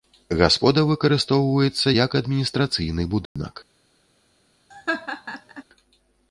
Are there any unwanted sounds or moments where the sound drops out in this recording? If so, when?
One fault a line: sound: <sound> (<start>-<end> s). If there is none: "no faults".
sound: dropout (3.3-3.4 s)
sound: laugh (4.7-5.6 s)